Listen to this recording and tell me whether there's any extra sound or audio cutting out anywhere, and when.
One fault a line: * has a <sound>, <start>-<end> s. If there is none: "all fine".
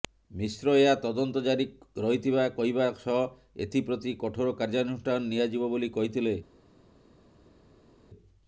all fine